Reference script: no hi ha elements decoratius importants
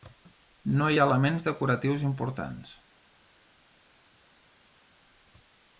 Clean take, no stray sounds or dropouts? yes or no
yes